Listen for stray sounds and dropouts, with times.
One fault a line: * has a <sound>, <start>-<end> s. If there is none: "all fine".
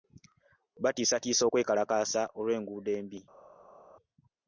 all fine